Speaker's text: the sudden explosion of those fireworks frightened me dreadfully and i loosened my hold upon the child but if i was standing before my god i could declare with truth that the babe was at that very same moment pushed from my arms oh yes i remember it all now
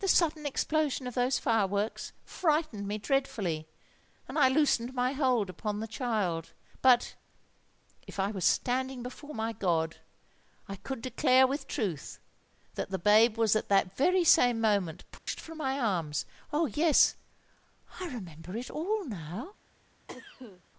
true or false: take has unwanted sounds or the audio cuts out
true